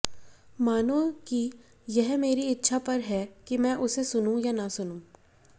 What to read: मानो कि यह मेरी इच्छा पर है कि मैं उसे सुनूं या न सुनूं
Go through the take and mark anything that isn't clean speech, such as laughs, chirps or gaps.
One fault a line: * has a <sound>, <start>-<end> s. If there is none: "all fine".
all fine